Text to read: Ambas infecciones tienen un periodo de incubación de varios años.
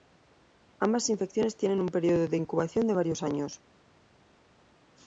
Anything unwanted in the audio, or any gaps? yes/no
no